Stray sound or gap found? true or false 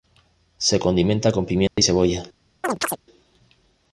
true